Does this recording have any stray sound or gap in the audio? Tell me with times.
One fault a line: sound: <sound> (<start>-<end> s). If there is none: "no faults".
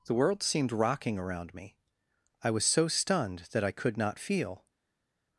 no faults